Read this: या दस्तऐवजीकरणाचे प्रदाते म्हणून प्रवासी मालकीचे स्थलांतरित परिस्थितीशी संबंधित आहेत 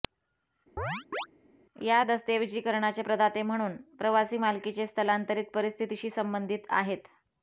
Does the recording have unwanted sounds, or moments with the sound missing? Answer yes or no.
yes